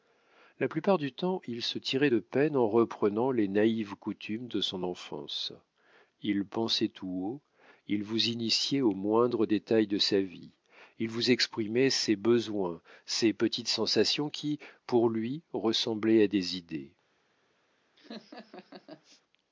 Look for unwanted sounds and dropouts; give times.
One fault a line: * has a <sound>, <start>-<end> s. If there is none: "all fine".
* has a laugh, 18.0-19.2 s